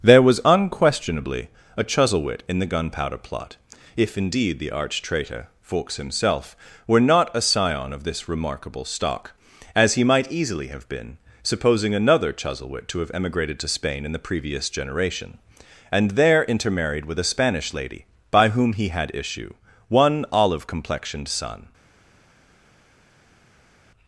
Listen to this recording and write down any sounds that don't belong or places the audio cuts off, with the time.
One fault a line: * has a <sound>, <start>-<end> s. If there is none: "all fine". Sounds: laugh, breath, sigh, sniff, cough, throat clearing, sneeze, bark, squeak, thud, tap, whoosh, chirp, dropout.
all fine